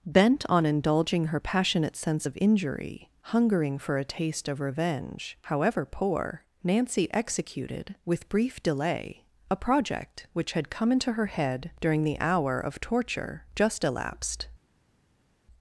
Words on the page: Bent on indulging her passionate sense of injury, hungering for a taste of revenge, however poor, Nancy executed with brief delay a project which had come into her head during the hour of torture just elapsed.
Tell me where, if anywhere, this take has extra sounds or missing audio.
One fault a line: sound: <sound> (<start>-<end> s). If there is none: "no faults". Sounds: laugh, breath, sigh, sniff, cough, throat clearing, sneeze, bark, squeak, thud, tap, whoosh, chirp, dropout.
no faults